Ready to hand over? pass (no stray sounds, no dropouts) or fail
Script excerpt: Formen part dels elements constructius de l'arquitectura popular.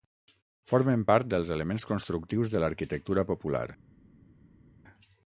pass